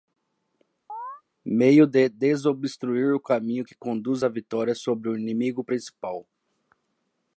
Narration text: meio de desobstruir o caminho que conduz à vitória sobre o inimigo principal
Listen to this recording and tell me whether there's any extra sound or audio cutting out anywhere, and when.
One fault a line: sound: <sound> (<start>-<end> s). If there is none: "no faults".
sound: chirp (0.9-1.2 s)